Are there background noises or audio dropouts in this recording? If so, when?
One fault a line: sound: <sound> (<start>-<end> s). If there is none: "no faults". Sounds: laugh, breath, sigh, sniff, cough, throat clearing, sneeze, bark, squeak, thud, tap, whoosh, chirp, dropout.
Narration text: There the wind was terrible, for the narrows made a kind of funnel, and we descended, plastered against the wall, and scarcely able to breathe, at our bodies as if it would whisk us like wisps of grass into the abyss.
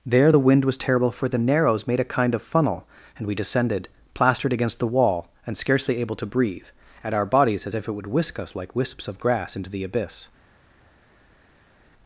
no faults